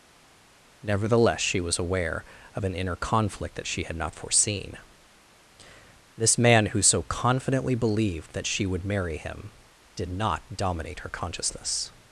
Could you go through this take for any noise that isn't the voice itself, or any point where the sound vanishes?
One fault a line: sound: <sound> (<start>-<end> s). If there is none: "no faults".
no faults